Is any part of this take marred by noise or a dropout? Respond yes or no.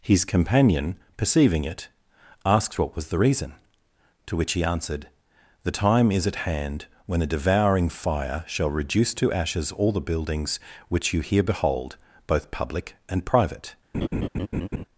yes